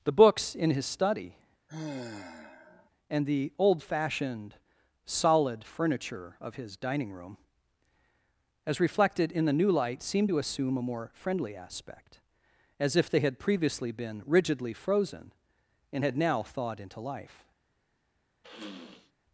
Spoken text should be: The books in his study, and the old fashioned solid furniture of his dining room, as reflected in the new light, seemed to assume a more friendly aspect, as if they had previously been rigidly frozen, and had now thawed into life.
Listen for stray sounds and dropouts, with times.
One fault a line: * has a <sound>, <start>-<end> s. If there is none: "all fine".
* has a sigh, 1.7-2.9 s
* has a sniff, 18.4-19.1 s